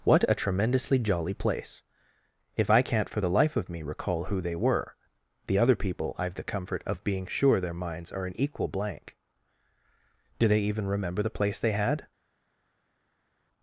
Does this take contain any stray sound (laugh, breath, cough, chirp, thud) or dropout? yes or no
no